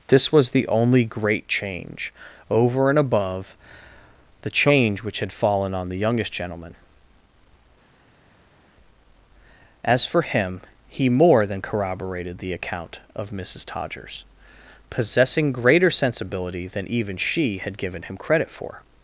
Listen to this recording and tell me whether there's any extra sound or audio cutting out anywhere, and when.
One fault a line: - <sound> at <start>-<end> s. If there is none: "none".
none